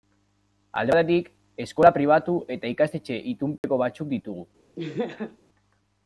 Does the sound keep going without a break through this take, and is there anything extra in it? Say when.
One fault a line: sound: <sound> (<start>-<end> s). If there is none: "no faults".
sound: dropout (3.6-3.6 s)
sound: laugh (4.8-5.4 s)